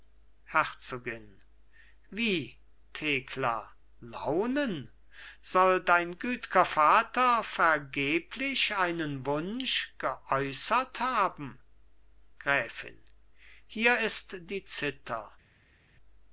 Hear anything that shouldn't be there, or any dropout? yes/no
no